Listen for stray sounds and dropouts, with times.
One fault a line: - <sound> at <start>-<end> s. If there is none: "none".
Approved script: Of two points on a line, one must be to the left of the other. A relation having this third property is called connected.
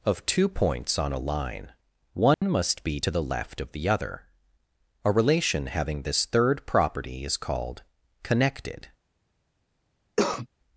- dropout at 2.3-2.4 s
- cough at 10.2-10.5 s